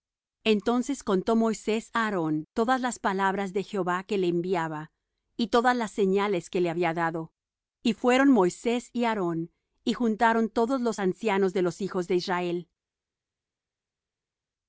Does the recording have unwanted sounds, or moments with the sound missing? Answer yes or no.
no